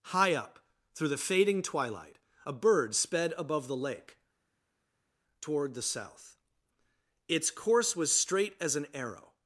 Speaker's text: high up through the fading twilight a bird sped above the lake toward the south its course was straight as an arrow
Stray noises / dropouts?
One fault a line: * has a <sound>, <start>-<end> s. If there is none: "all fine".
all fine